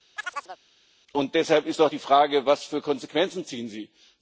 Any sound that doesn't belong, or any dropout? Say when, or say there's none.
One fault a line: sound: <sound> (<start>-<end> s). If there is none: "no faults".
sound: chirp (0.2-0.6 s)